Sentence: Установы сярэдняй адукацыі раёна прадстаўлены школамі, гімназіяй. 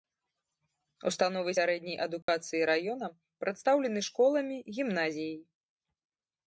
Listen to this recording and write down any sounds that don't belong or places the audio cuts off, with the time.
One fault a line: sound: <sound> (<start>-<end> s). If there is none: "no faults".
sound: dropout (2.2-2.3 s)